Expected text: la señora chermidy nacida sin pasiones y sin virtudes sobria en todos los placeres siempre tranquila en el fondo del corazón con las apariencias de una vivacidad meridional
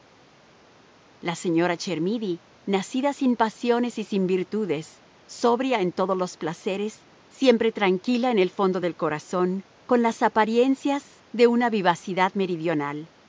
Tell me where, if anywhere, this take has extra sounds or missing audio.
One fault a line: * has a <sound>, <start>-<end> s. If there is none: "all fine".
all fine